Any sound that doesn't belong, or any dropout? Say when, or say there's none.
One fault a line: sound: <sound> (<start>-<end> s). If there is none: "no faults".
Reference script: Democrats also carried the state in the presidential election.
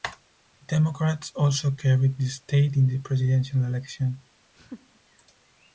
sound: laugh (4.5-5.0 s)